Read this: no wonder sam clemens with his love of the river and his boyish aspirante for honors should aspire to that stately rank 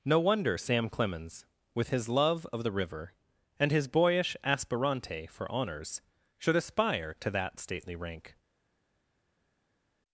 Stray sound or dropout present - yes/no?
no